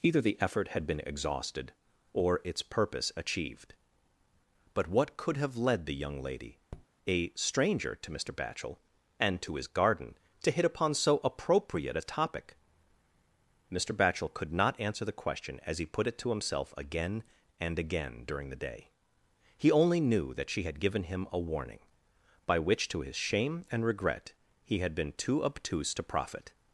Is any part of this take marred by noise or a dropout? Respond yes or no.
yes